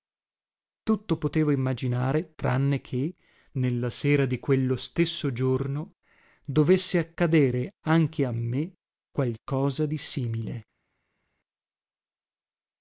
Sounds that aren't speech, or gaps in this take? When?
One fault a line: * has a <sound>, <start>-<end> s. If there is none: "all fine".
all fine